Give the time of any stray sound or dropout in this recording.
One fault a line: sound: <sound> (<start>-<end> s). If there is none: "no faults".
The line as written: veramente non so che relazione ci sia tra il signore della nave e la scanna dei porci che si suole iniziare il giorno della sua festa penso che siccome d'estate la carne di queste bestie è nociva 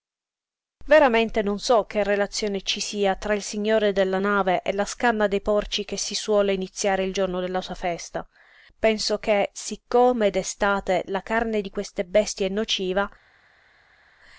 no faults